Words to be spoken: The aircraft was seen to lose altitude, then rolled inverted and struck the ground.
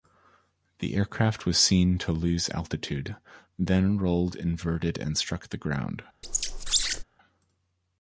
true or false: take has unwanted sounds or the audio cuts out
true